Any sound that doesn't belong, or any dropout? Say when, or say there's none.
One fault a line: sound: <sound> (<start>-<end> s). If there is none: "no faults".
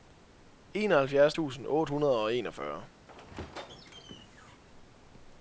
sound: squeak (3.1-4.6 s)